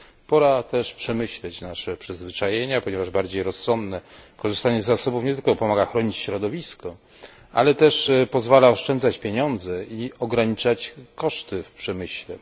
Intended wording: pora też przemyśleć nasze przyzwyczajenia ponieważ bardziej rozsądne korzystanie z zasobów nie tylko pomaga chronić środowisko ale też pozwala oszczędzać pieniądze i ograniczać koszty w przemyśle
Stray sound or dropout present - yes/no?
no